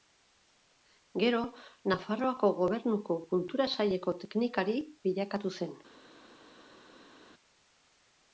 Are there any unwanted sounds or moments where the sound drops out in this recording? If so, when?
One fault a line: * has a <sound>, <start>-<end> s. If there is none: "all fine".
all fine